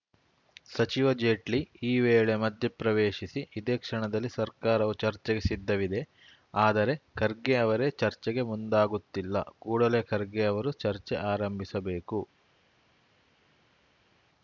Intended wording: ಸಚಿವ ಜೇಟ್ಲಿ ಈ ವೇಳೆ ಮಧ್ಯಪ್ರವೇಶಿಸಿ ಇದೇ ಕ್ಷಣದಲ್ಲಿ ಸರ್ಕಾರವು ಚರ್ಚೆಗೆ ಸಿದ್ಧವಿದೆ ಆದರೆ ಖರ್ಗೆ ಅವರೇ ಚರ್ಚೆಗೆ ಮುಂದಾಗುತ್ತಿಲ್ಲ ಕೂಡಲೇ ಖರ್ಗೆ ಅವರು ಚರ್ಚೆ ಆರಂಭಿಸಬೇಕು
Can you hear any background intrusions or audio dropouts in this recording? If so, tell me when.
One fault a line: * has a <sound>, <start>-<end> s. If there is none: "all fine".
all fine